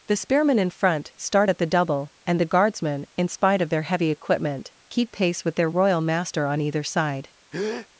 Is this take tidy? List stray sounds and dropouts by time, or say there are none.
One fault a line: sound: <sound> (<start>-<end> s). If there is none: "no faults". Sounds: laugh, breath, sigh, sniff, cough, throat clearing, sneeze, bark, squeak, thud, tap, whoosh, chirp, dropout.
sound: breath (7.5-7.9 s)